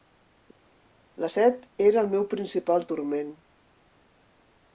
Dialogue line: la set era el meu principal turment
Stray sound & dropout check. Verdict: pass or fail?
pass